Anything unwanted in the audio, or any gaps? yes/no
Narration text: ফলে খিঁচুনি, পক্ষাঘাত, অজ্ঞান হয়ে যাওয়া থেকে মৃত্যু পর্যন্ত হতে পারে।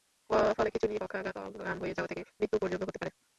no